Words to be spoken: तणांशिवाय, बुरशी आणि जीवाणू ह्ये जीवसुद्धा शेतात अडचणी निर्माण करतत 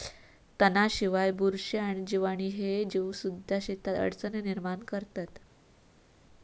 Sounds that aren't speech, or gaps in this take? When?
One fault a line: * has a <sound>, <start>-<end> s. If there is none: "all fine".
all fine